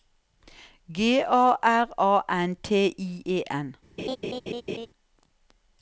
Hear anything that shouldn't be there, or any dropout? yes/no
yes